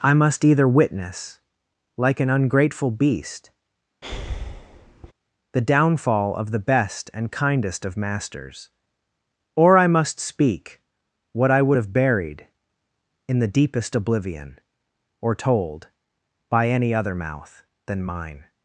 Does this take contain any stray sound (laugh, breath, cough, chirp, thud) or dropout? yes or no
yes